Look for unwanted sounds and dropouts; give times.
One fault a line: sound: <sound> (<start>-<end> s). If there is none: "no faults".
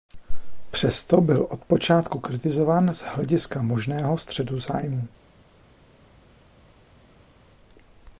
no faults